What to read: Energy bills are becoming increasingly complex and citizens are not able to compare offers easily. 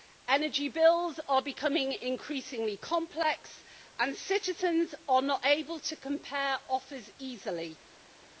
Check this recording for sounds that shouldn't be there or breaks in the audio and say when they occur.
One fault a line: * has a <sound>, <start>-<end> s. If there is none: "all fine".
all fine